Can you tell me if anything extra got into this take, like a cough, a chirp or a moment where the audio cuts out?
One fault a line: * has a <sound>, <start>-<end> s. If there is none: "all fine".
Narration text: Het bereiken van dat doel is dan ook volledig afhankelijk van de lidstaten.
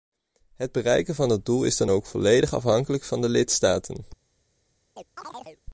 * has a chirp, 5.0-5.6 s